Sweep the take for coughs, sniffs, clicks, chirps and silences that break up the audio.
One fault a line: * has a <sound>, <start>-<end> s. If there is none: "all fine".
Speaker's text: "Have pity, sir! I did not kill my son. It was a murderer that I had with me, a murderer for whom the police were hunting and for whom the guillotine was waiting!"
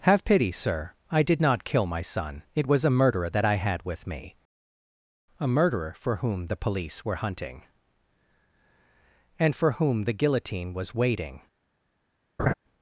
* has a laugh, 12.4-12.5 s